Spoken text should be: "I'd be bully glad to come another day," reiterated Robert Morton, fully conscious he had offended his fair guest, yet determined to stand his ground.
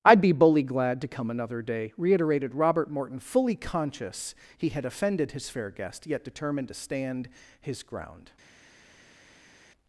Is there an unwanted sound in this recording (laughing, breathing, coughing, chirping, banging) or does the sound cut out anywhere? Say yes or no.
no